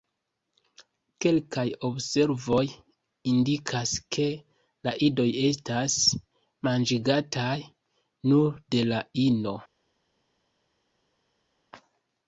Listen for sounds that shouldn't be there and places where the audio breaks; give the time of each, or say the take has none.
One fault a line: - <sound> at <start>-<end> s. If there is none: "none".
none